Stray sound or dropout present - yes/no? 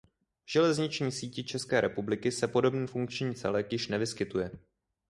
no